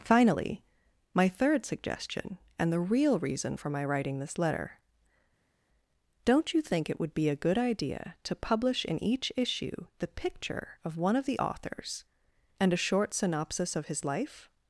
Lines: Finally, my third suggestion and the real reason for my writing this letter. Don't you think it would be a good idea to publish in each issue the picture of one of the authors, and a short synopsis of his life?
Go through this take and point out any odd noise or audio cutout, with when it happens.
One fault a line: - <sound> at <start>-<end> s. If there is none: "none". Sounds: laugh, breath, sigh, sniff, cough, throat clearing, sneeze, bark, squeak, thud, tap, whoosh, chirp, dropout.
none